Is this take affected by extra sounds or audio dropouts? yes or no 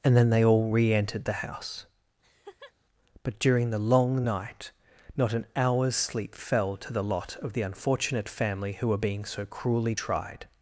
yes